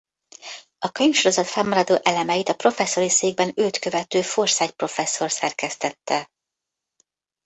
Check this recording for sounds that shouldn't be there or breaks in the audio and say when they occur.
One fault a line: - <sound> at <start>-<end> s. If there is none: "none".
none